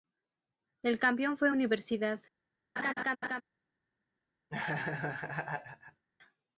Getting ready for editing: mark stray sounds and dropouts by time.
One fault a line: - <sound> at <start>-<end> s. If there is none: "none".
- laugh at 2.8-3.4 s
- laugh at 4.5-6.0 s